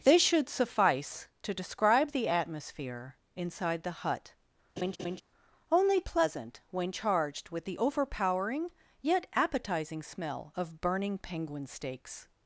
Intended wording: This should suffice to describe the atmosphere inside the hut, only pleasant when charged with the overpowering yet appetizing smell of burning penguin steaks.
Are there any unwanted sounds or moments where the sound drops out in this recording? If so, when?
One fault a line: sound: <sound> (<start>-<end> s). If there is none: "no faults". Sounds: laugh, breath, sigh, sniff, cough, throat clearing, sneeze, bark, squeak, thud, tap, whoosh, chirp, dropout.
sound: laugh (4.8-5.2 s)